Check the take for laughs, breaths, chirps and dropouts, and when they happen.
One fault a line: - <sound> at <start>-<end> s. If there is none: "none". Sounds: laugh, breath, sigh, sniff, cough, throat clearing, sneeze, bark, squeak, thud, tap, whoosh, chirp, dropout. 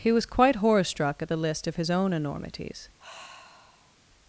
- sigh at 3.0-4.0 s